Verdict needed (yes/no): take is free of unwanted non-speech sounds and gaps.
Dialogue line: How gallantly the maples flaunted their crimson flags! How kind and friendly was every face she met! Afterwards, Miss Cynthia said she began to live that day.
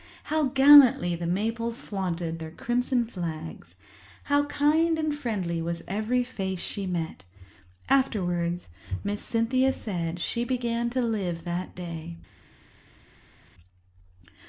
yes